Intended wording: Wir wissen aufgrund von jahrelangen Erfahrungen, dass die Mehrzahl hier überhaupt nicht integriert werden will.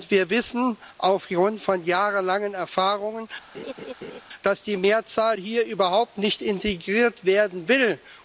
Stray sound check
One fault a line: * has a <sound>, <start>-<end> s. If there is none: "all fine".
* has a laugh, 3.5-4.2 s